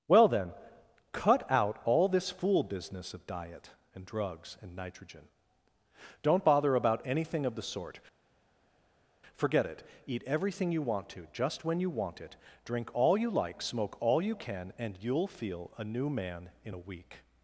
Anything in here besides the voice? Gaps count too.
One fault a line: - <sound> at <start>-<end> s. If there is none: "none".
none